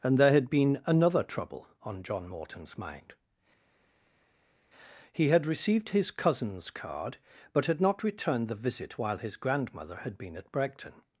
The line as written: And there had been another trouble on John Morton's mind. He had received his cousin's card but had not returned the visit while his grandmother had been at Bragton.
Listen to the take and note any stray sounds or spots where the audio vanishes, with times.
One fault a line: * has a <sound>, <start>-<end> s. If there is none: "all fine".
all fine